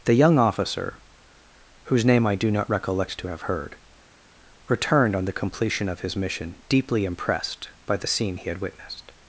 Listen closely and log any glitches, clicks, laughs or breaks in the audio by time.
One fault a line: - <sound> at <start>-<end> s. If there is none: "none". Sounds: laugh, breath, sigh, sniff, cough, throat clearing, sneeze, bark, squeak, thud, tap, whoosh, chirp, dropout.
none